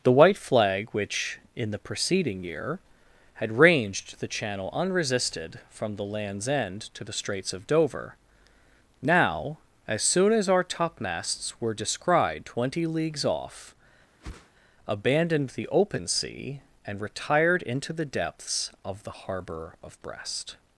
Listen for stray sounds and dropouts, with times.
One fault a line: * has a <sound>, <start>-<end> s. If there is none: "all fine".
* has a whoosh, 14.2-14.5 s